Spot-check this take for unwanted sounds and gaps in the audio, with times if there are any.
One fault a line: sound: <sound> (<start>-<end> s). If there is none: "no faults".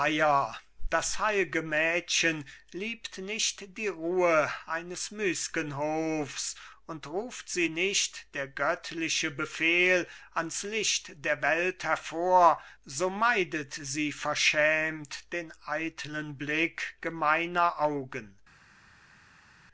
no faults